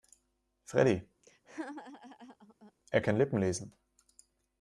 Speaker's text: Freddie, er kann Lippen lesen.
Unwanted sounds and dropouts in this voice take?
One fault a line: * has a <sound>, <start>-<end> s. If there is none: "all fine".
* has a laugh, 1.2-2.7 s